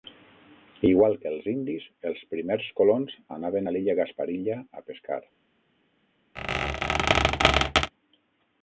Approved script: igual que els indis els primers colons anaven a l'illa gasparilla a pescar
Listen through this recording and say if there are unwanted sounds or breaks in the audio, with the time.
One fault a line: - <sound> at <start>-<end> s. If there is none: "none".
- squeak at 6.4-7.9 s